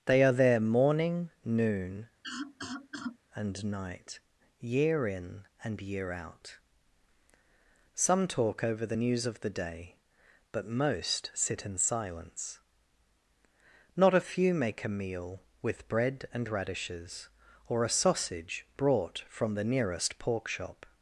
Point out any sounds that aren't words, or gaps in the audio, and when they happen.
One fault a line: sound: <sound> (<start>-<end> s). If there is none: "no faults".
sound: cough (2.2-3.2 s)